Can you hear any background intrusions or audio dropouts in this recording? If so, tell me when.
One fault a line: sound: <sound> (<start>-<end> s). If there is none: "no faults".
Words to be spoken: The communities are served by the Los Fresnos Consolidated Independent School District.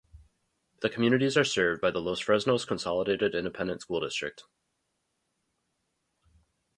no faults